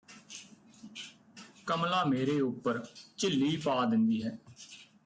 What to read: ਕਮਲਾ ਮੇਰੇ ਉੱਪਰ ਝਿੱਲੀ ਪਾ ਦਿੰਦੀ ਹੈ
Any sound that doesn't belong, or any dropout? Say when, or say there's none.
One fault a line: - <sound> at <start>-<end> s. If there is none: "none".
none